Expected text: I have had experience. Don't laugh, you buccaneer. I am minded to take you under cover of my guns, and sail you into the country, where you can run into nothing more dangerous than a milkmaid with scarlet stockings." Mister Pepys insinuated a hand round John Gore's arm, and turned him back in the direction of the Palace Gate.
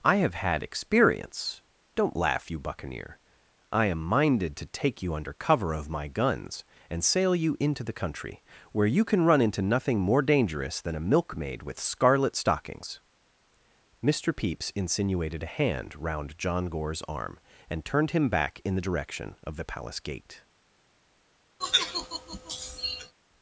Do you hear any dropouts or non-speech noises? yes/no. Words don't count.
yes